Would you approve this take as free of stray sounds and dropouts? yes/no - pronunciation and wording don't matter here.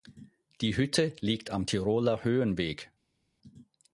yes